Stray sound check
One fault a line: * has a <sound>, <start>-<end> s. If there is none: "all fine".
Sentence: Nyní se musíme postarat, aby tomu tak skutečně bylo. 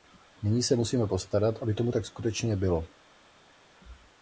all fine